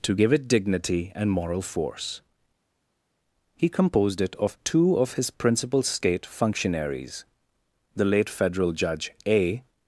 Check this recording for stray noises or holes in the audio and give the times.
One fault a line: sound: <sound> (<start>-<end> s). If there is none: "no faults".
no faults